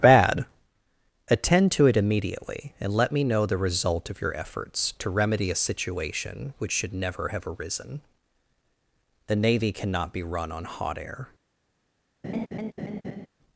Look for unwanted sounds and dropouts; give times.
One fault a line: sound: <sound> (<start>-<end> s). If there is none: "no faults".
sound: laugh (12.2-13.3 s)